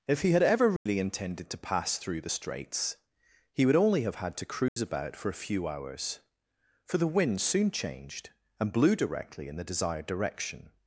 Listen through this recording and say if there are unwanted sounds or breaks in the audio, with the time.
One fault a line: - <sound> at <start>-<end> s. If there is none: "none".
- dropout at 0.8-0.9 s
- dropout at 4.7-4.8 s